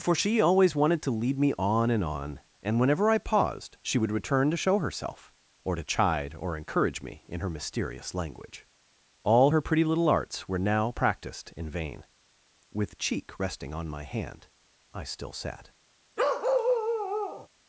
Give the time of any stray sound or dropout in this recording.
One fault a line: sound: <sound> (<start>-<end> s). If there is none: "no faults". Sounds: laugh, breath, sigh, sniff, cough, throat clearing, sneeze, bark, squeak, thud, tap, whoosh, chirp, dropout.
sound: bark (16.2-17.5 s)